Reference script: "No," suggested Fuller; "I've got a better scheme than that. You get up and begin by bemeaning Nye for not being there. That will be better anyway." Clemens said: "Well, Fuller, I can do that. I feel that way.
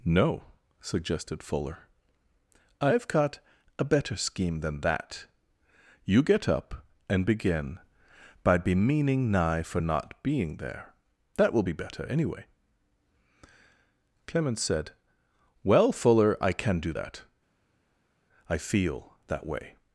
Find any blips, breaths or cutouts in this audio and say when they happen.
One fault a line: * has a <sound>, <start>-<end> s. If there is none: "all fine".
all fine